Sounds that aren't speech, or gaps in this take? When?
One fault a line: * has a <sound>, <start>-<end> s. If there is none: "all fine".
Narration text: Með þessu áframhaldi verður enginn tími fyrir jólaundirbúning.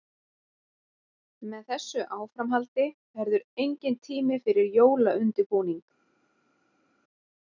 all fine